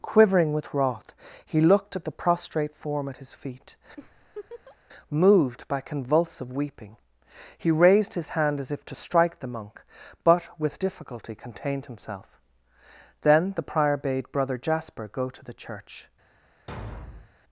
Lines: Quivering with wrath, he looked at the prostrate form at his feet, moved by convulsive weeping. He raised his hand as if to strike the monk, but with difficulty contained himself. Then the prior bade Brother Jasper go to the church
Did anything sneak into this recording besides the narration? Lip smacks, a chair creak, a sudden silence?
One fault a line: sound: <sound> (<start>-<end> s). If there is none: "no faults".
sound: laugh (4.0-4.8 s)
sound: thud (16.7-17.3 s)